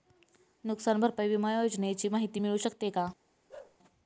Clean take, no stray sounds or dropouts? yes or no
no